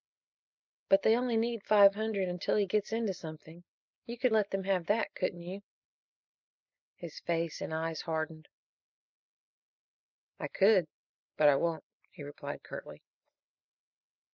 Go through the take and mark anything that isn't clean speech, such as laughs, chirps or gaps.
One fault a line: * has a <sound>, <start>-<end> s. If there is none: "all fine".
all fine